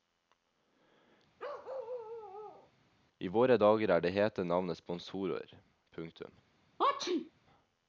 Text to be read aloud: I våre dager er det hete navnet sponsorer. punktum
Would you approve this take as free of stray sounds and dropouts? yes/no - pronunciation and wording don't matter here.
no